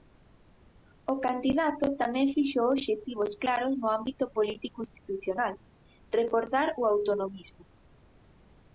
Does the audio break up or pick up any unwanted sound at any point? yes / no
no